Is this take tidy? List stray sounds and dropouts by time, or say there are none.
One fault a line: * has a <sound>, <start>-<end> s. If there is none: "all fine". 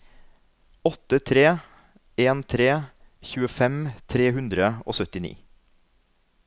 all fine